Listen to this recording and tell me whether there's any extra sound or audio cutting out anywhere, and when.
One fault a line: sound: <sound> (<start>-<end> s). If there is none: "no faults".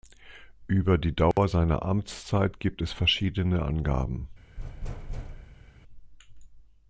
sound: dropout (1.3-1.4 s)
sound: thud (4.6-5.8 s)